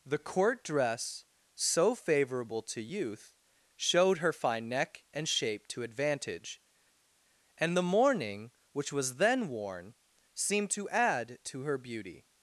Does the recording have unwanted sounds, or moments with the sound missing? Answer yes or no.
no